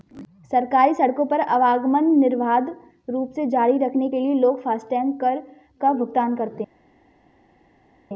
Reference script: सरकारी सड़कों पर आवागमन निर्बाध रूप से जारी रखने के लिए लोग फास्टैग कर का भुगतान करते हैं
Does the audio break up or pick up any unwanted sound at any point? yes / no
no